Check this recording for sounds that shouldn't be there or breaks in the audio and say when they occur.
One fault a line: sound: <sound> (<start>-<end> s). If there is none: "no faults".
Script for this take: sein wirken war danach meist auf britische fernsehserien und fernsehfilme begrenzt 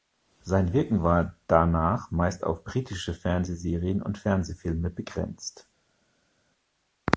no faults